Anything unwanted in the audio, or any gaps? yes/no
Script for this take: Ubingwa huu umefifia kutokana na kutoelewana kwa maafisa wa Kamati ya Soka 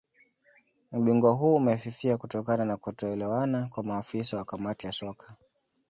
no